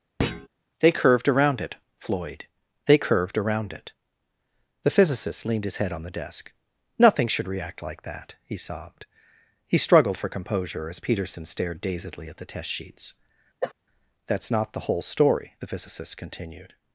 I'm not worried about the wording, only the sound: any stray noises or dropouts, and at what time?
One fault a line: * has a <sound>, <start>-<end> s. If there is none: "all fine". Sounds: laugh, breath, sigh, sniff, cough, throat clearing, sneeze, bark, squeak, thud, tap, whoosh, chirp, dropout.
* has a thud, 0.2-0.5 s
* has a cough, 13.6-13.7 s